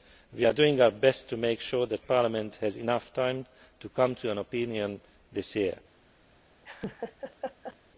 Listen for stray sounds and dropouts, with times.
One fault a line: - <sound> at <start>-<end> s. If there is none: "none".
- laugh at 6.6-7.8 s